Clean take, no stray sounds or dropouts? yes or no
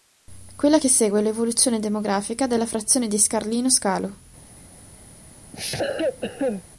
no